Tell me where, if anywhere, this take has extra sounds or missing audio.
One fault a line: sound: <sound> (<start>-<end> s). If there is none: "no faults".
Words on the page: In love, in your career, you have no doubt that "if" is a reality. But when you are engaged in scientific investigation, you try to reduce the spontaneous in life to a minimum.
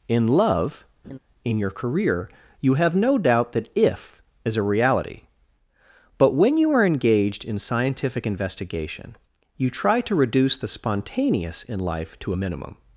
sound: laugh (1.0-1.2 s)